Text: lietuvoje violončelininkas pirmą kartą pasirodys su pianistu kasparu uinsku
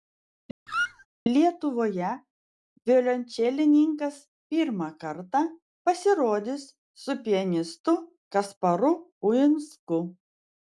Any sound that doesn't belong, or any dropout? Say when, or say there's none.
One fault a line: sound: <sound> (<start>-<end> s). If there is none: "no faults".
sound: squeak (0.7-1.1 s)